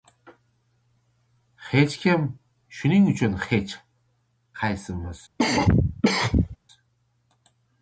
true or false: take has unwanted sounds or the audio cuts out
true